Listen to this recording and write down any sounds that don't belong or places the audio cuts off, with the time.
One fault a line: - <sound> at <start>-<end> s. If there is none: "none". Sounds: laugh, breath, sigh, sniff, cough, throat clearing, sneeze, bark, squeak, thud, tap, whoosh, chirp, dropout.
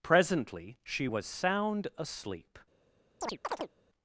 - chirp at 3.2-3.7 s